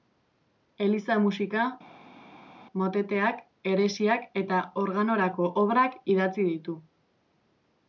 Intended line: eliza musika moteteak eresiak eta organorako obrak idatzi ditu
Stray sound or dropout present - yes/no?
no